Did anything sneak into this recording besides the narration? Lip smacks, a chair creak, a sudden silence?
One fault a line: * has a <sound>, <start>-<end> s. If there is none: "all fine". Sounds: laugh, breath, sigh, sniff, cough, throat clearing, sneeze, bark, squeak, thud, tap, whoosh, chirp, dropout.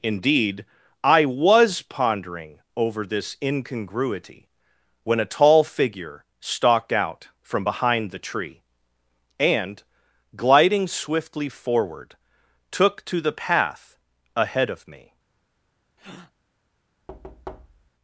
* has a breath, 16.0-16.3 s
* has a thud, 17.1-17.9 s